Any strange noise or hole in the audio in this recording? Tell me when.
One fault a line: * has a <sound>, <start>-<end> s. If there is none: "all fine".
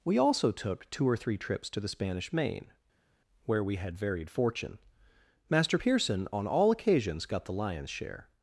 all fine